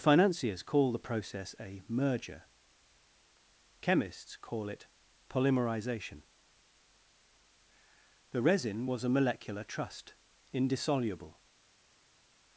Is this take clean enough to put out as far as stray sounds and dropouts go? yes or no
yes